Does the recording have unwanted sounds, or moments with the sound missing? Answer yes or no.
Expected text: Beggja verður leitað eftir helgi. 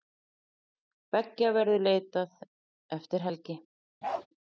yes